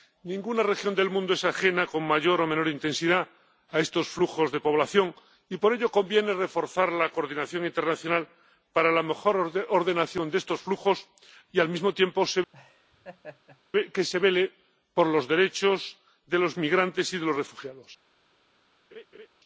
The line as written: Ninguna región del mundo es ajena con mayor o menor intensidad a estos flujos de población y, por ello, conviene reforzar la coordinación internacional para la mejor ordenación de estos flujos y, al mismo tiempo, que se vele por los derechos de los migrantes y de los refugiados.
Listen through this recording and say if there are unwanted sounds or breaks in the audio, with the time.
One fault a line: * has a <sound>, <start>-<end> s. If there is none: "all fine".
* has a laugh, 12.5-13.6 s
* has a laugh, 18.9-19.3 s